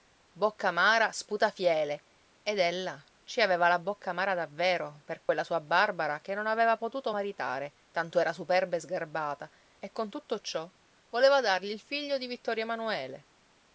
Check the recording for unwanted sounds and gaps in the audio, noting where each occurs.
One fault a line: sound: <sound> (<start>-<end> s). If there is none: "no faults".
sound: dropout (5.2-5.3 s)